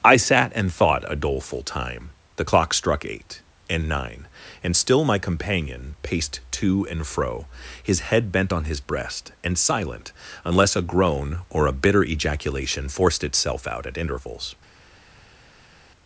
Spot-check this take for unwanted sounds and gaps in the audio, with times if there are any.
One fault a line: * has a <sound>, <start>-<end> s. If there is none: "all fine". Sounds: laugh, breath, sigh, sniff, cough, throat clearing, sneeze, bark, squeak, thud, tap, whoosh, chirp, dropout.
all fine